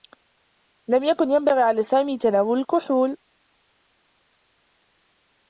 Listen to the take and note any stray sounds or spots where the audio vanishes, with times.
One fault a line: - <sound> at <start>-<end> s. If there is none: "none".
none